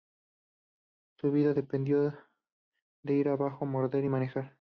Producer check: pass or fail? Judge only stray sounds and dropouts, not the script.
pass